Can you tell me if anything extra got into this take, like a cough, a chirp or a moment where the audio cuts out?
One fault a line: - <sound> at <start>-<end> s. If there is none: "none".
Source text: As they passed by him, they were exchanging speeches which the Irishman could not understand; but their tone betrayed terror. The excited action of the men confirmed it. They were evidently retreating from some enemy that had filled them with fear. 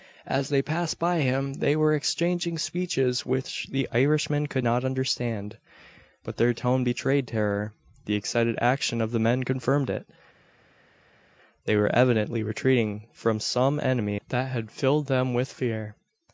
none